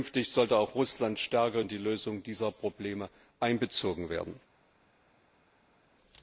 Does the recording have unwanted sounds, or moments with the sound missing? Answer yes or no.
no